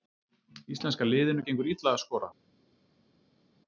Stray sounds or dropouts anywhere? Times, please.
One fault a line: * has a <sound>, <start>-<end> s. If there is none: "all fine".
all fine